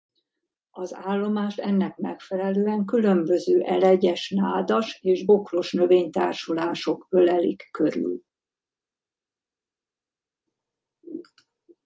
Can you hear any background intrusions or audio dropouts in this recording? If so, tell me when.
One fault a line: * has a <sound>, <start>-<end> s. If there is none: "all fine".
all fine